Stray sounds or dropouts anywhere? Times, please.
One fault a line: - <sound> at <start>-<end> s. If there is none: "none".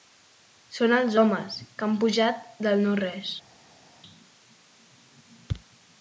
none